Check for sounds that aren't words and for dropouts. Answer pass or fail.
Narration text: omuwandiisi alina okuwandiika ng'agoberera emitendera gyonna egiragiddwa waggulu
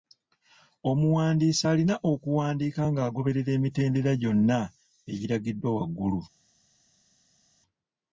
pass